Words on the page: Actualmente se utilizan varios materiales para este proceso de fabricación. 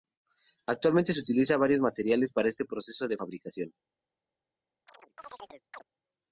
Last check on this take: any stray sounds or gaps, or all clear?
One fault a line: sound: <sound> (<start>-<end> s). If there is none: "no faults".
sound: chirp (4.9-5.8 s)